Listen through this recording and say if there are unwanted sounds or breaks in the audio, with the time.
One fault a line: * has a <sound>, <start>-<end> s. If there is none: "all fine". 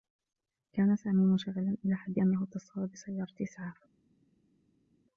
all fine